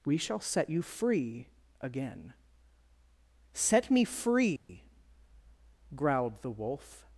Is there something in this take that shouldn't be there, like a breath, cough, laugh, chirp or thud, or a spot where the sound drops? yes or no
yes